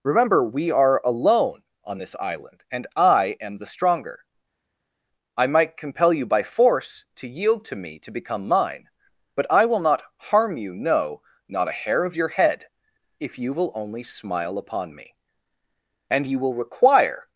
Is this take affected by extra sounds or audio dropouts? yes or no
no